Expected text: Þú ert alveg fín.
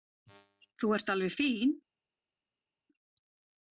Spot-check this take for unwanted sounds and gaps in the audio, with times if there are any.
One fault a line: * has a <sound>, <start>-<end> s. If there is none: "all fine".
all fine